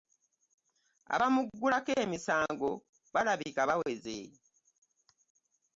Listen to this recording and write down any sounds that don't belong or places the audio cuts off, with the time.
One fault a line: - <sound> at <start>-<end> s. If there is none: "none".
none